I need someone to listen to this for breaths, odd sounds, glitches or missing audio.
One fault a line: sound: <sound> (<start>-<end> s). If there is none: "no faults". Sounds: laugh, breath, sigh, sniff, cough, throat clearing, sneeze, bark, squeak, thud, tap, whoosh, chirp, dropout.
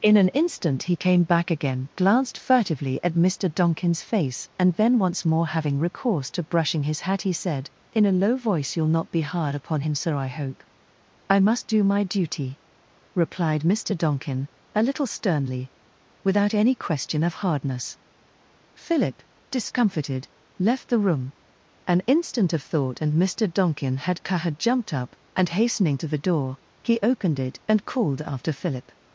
no faults